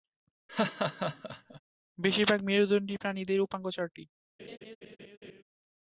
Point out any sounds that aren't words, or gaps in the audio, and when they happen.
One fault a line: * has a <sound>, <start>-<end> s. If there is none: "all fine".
* has a laugh, 0.5-1.6 s
* has a laugh, 4.4-5.4 s